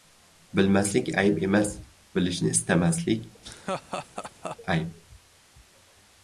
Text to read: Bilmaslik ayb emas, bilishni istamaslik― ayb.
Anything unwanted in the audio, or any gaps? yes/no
yes